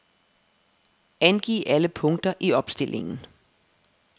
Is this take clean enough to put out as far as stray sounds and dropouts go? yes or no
yes